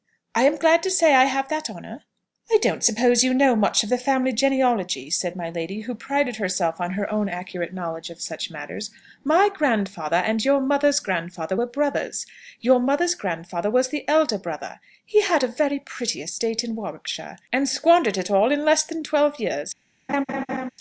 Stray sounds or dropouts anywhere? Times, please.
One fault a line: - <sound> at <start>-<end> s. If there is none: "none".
- laugh at 20.1-20.7 s